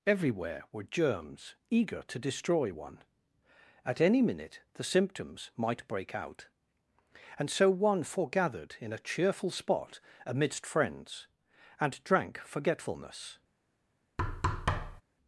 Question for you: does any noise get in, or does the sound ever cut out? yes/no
yes